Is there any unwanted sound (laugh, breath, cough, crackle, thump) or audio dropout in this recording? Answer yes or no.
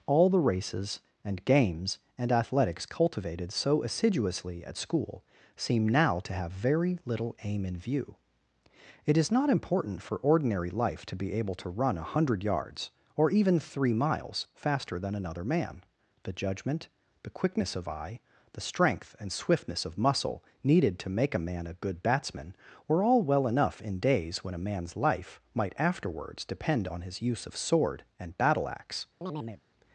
yes